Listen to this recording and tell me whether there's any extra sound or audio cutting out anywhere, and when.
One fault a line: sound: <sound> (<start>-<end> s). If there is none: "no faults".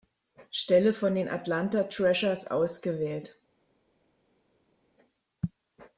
no faults